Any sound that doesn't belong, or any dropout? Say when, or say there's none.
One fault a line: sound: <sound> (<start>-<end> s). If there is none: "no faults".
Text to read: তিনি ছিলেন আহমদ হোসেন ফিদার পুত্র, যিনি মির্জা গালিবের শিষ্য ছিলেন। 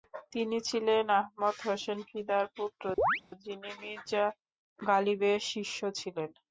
sound: chirp (3.0-3.2 s)